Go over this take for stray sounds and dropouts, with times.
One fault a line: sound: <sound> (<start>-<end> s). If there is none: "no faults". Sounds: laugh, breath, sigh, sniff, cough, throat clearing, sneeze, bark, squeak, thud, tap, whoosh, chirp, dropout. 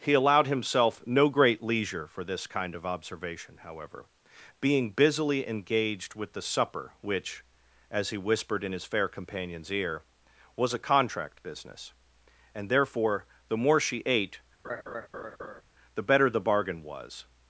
sound: laugh (14.6-15.6 s)